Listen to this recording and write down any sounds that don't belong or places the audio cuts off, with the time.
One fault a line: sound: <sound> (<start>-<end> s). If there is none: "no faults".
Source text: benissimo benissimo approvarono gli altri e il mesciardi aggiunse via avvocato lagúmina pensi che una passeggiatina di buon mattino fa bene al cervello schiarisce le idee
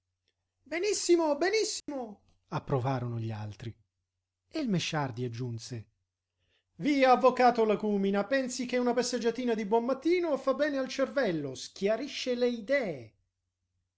sound: dropout (1.8-1.9 s)